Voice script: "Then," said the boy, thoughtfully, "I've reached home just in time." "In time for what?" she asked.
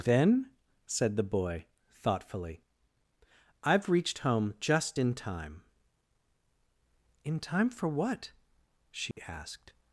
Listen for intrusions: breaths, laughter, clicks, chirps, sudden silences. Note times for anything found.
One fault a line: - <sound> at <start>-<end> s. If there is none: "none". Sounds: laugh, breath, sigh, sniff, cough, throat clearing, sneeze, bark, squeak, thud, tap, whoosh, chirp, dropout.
- dropout at 9.1-9.2 s